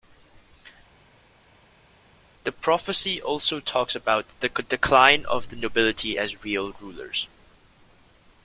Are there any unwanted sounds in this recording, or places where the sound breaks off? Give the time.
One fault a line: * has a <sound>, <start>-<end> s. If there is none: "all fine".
all fine